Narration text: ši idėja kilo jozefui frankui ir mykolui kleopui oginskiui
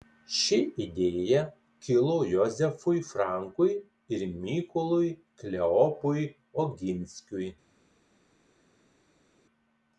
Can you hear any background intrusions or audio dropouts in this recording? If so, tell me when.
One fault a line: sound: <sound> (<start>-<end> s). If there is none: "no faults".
no faults